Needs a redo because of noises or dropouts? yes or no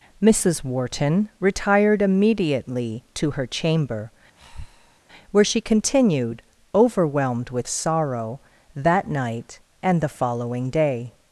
yes